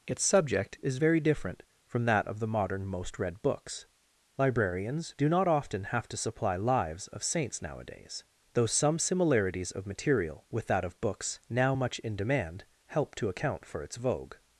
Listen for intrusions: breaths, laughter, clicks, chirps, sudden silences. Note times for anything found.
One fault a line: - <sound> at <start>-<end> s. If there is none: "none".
none